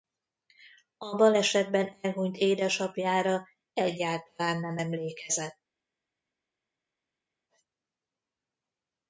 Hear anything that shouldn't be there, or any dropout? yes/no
no